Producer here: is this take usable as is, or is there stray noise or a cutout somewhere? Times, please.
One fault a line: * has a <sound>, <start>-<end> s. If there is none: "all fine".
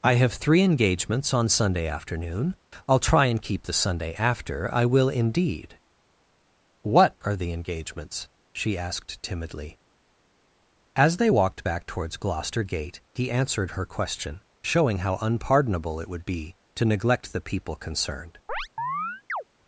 * has a chirp, 18.5-19.4 s